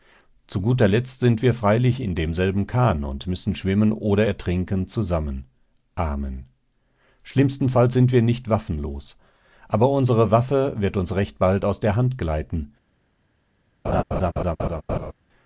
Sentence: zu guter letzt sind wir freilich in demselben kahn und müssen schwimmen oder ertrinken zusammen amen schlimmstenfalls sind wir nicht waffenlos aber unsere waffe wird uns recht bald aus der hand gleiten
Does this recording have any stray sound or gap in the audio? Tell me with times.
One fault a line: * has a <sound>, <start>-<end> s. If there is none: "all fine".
* has a laugh, 13.8-15.1 s